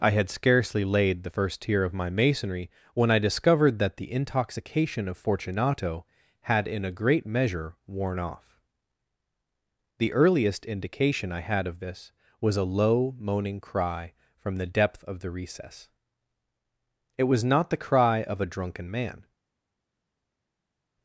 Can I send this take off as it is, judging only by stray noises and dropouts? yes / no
yes